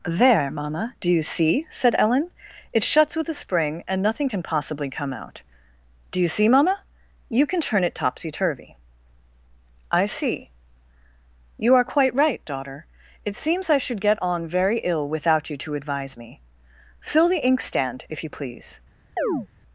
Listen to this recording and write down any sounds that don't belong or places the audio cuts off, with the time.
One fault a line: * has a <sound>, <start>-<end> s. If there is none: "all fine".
* has a chirp, 19.2-19.5 s